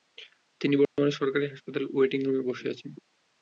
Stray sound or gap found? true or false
true